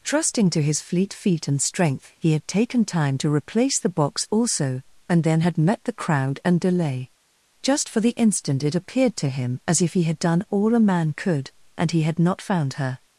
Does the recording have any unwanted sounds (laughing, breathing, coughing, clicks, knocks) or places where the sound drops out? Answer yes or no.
no